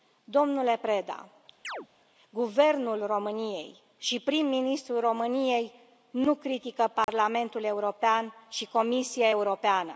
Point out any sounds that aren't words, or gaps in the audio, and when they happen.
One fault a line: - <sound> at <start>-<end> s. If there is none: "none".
- chirp at 1.6-1.9 s
- dropout at 7.0-7.1 s